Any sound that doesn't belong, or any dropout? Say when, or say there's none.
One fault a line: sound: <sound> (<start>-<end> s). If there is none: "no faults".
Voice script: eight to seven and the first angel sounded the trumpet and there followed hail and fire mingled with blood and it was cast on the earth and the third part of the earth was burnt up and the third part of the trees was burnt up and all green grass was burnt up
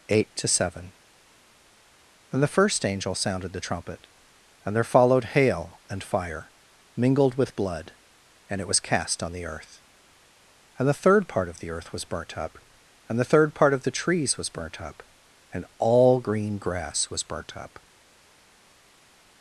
no faults